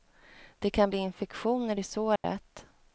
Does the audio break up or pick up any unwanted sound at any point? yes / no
yes